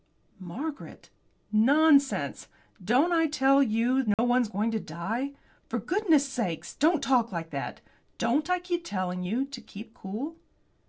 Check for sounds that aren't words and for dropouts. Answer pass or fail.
fail